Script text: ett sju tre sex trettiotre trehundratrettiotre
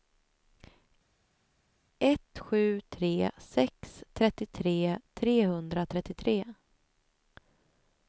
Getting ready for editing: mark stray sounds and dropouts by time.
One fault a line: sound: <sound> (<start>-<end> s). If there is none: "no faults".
no faults